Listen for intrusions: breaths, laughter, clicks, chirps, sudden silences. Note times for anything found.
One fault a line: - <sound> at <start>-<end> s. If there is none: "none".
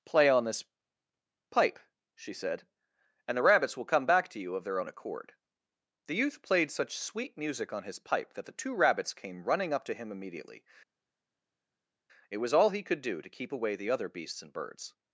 none